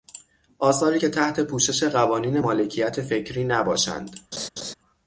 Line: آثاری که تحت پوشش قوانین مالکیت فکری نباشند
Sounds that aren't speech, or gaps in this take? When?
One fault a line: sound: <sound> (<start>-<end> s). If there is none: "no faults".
sound: laugh (4.3-4.7 s)